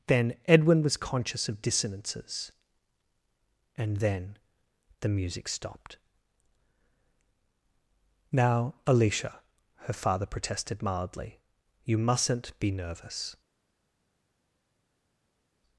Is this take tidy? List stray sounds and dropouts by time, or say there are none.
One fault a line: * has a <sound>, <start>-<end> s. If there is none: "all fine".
all fine